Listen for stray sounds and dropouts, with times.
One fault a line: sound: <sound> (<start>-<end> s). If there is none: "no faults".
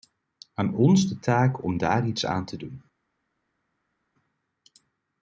no faults